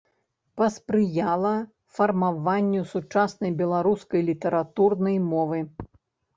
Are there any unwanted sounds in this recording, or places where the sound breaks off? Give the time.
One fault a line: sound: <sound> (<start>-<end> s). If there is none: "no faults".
no faults